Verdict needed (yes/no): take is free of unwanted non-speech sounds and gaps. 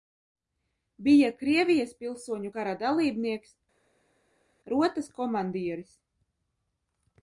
yes